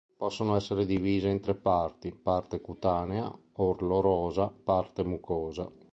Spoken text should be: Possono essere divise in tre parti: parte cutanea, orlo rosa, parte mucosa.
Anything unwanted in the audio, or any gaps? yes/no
no